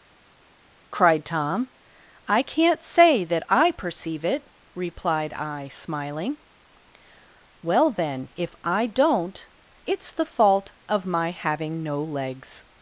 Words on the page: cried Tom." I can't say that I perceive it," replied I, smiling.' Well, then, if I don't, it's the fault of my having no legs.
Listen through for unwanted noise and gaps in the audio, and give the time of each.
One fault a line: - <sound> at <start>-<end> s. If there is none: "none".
none